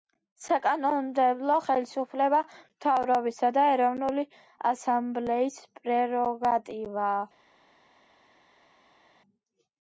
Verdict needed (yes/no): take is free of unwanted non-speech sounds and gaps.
yes